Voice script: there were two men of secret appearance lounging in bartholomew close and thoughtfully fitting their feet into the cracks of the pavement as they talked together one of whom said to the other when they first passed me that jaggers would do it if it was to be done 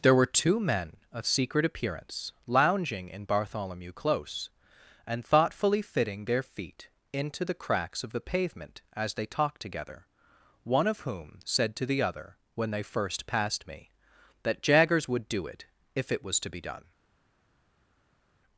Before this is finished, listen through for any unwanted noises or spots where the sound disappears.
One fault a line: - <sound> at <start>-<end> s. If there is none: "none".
none